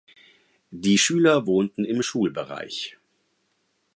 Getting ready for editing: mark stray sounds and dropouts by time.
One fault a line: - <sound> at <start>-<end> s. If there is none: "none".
none